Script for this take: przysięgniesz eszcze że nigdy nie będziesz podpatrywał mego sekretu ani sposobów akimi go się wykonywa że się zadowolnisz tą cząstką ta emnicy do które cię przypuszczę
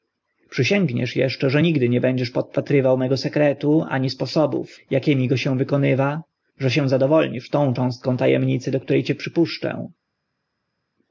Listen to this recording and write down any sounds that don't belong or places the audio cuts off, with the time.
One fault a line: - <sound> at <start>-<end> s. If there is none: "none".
none